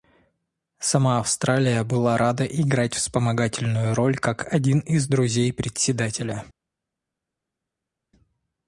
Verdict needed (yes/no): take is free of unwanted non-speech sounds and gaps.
yes